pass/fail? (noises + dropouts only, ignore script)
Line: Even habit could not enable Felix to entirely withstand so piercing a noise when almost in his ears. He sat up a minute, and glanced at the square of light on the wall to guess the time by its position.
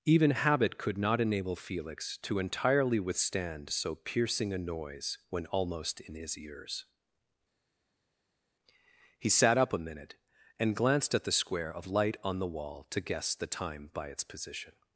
pass